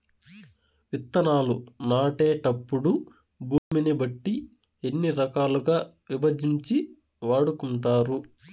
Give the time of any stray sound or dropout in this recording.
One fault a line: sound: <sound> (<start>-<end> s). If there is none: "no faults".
sound: dropout (3.6-3.7 s)